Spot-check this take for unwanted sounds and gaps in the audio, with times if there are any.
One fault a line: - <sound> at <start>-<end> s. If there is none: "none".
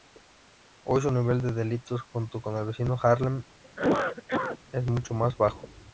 - cough at 3.6-4.6 s